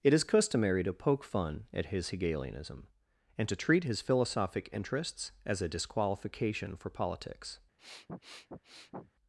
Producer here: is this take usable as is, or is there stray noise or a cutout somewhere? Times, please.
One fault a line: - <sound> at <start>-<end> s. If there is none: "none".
- sniff at 7.8-9.1 s